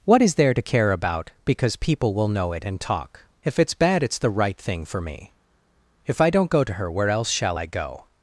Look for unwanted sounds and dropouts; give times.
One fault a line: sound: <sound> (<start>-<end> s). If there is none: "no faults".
no faults